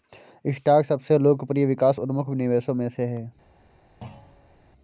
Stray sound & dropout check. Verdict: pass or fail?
fail